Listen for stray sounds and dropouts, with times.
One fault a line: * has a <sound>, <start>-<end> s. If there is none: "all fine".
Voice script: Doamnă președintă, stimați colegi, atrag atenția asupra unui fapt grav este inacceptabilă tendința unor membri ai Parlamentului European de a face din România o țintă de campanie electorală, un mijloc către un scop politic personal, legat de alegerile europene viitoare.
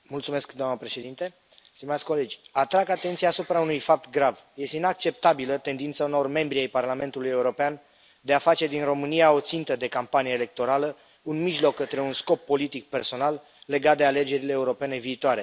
all fine